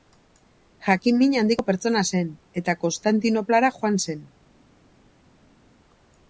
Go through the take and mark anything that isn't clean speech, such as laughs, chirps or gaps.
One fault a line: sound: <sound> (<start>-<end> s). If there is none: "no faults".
no faults